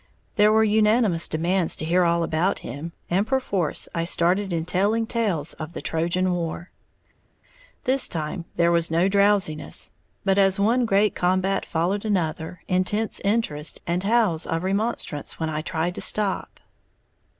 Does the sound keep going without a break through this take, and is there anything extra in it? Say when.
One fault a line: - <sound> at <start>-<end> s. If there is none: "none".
none